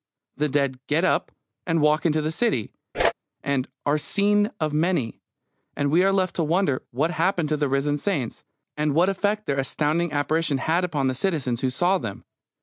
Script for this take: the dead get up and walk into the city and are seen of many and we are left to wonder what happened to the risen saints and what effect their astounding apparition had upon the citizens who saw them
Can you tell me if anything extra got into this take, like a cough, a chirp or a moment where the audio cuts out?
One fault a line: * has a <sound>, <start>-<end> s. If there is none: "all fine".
* has a whoosh, 2.9-3.1 s